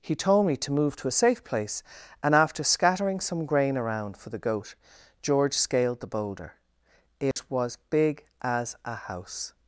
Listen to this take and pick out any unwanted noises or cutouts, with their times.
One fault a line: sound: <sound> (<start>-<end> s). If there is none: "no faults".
sound: dropout (7.3-7.4 s)